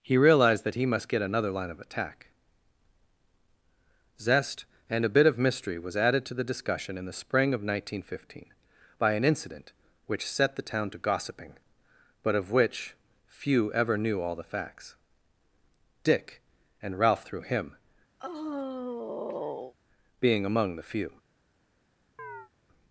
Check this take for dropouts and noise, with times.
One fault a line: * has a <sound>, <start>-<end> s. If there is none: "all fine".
* has a sigh, 18.2-19.7 s
* has a chirp, 22.2-22.5 s